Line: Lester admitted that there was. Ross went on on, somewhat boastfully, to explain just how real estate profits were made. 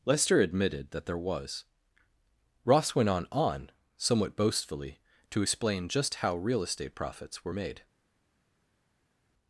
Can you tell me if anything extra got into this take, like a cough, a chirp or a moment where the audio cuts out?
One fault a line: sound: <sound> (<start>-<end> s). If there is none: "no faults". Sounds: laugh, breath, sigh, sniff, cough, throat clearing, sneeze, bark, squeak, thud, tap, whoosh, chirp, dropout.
no faults